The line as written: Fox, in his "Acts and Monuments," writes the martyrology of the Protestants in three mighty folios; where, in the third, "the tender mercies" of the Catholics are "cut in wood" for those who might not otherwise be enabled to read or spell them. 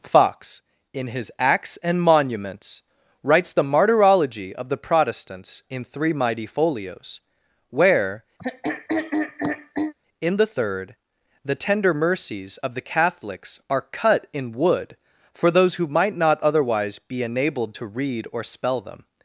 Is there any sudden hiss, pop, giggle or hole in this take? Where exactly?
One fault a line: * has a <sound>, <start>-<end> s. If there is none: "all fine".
* has a throat clearing, 8.4-9.9 s